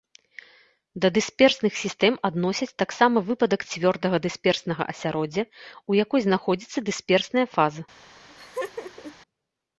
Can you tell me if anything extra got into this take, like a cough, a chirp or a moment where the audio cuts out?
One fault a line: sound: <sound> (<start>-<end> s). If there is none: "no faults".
sound: laugh (8.3-9.2 s)